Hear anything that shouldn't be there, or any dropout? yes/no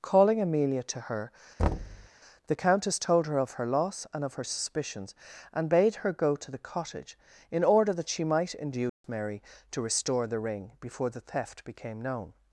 yes